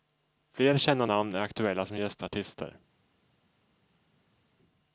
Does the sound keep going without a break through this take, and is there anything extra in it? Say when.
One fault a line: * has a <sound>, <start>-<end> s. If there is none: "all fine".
all fine